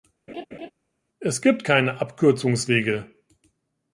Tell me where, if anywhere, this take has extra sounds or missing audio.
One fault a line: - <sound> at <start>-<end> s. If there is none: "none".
- laugh at 0.3-0.7 s